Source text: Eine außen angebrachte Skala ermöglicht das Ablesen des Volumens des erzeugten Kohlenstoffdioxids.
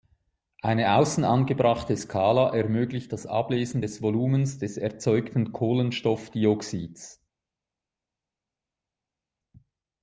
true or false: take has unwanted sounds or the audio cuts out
false